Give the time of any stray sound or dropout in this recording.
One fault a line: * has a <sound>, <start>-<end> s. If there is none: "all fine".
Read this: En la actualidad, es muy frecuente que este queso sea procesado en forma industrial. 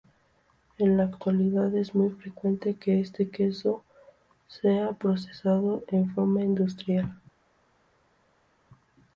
all fine